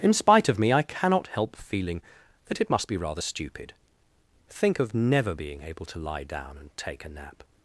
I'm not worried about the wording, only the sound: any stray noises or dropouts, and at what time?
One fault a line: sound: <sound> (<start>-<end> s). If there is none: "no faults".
no faults